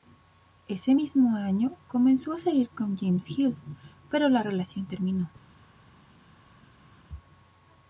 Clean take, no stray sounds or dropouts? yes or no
yes